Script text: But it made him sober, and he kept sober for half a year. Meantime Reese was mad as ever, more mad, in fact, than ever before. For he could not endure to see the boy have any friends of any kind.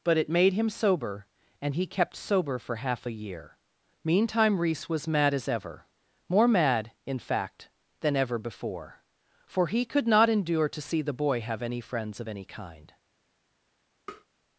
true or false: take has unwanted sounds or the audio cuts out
true